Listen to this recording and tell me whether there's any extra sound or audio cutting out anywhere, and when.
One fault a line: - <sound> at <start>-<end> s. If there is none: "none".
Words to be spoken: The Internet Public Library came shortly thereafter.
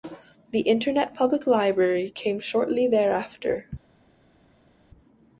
none